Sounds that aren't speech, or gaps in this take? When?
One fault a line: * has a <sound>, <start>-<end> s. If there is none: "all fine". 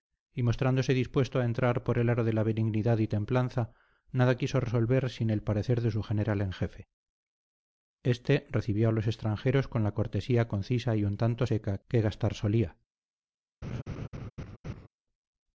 * has a laugh, 13.6-14.9 s